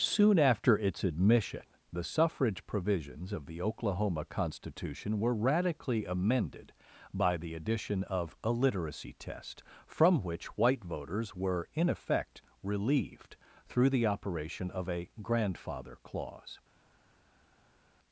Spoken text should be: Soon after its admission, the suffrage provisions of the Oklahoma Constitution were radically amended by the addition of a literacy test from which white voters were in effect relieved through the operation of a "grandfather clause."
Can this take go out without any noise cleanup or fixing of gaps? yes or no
yes